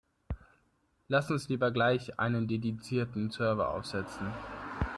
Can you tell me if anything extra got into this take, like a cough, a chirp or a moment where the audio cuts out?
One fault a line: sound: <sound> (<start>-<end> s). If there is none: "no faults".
no faults